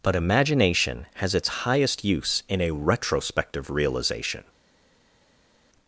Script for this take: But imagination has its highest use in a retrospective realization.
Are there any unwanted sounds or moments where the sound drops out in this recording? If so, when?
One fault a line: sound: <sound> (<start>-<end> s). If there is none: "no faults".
no faults